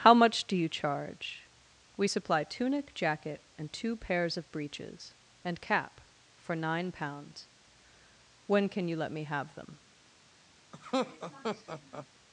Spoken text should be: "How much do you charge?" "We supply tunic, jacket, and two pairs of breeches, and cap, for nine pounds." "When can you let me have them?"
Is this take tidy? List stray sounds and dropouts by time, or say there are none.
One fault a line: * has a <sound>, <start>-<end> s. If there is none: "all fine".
* has a laugh, 10.7-12.1 s